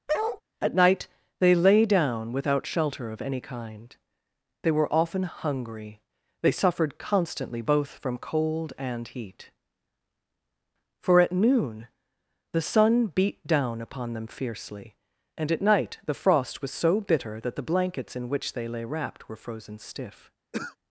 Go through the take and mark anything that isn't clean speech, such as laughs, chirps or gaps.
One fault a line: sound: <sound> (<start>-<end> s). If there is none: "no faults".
sound: bark (0.1-0.4 s)
sound: throat clearing (20.5-20.8 s)